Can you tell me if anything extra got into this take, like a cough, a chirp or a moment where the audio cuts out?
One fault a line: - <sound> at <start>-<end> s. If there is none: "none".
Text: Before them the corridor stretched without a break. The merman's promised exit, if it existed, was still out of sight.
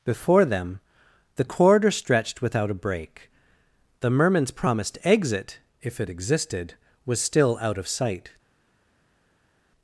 none